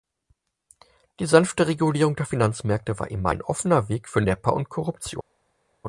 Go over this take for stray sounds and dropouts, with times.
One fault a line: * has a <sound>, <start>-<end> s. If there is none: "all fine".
all fine